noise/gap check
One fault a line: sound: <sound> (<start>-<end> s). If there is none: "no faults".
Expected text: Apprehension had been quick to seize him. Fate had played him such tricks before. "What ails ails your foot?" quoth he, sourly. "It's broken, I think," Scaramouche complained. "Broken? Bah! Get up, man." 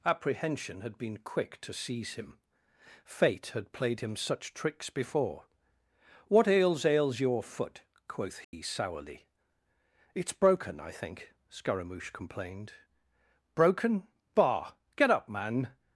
sound: dropout (8.4-8.5 s)